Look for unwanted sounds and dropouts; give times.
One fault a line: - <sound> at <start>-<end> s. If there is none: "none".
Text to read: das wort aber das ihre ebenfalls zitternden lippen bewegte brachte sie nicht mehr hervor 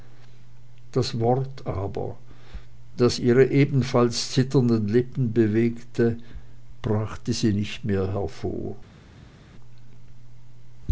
none